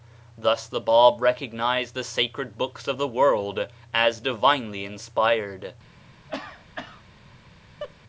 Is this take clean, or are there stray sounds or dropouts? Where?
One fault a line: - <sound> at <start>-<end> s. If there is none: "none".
- cough at 6.3-7.0 s
- laugh at 7.8-7.9 s